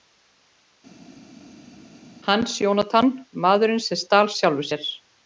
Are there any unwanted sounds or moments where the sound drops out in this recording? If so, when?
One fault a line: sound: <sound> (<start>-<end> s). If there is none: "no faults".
no faults